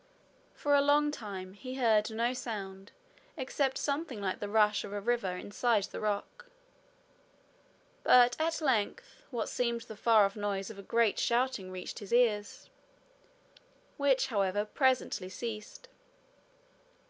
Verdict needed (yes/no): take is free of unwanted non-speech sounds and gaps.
yes